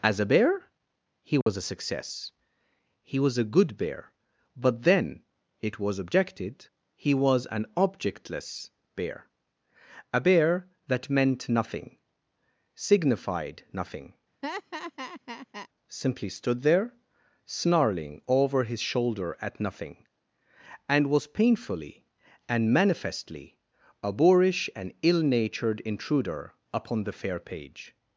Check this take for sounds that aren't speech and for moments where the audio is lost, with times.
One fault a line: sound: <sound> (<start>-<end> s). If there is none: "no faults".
sound: dropout (1.4-1.5 s)
sound: laugh (14.4-15.7 s)